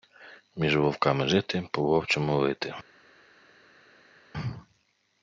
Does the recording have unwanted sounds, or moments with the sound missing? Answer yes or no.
no